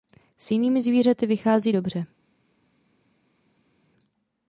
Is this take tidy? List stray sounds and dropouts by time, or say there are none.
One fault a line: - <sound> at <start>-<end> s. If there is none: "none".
none